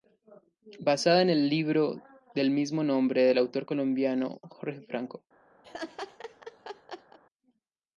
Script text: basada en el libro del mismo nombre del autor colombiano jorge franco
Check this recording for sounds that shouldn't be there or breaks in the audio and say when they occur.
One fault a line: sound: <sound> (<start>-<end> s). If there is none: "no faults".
sound: laugh (5.6-7.2 s)